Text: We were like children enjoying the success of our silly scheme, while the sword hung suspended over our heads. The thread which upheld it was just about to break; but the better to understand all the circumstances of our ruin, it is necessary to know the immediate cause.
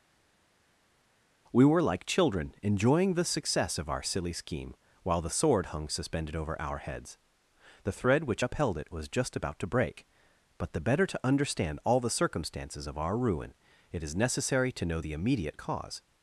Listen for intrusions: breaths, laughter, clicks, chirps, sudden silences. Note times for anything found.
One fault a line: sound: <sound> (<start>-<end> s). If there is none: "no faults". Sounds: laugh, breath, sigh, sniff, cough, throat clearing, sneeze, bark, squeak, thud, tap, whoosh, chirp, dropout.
no faults